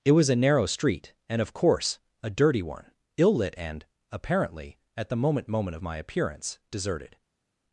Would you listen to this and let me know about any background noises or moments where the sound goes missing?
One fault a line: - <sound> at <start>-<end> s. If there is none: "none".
none